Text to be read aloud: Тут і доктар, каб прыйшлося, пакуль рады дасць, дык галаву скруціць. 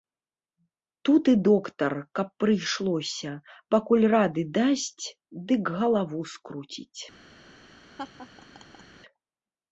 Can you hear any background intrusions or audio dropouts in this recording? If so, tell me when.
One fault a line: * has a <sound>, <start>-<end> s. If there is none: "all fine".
* has a laugh, 8.0-8.8 s